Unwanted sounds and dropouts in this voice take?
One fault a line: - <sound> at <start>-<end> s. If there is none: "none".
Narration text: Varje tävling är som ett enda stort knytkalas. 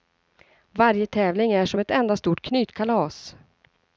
none